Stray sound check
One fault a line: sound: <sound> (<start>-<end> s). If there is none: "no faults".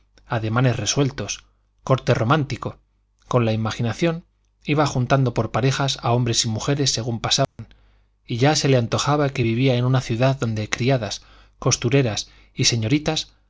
sound: dropout (7.4-7.6 s)